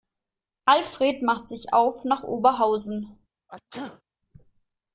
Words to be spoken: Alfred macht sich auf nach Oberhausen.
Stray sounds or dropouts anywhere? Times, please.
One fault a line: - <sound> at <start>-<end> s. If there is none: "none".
- sneeze at 3.5-4.0 s